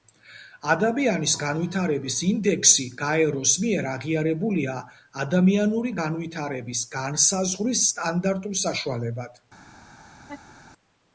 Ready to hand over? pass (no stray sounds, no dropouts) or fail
fail